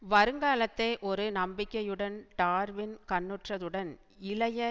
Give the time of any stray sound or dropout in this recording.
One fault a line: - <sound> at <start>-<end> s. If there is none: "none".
none